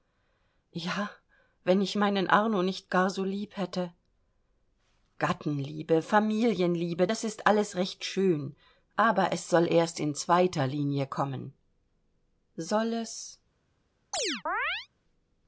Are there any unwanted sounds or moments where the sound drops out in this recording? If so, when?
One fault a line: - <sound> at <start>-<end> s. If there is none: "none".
- chirp at 14.1-14.9 s